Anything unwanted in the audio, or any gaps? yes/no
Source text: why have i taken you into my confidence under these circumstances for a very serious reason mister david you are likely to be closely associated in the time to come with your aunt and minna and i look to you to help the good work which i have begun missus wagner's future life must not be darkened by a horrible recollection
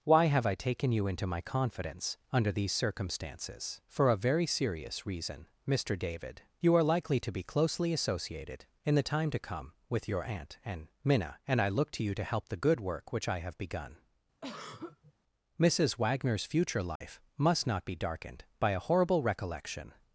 yes